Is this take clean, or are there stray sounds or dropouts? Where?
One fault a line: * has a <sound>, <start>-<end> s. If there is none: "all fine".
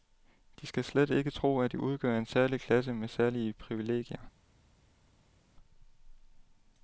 all fine